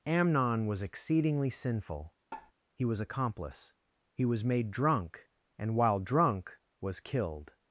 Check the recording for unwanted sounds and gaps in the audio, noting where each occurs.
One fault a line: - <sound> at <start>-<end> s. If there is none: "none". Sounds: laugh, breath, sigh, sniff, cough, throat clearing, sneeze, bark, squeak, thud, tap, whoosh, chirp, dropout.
- tap at 2.3-2.5 s